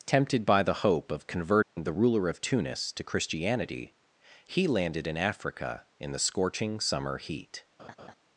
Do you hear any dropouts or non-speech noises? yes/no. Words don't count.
yes